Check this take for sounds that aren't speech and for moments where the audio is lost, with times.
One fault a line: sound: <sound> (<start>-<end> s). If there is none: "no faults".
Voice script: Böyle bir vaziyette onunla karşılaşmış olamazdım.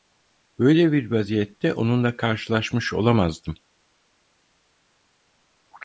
no faults